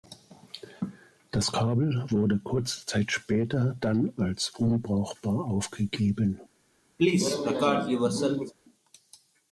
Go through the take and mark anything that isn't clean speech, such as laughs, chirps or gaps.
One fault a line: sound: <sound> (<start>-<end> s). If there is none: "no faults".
sound: cough (7.0-8.5 s)